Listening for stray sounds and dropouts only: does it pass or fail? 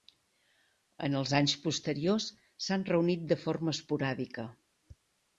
pass